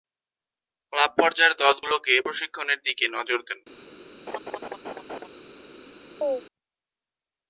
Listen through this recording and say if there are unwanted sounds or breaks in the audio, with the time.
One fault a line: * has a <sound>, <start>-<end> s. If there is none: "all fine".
* has a laugh, 4.3-5.3 s
* has a chirp, 6.2-6.4 s